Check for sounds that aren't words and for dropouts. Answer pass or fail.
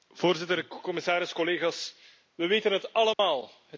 fail